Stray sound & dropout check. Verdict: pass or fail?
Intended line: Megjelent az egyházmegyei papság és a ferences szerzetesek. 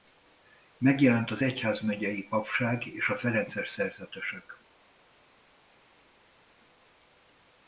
pass